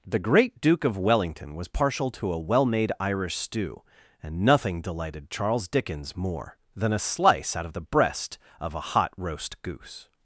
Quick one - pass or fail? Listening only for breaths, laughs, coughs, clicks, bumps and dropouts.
pass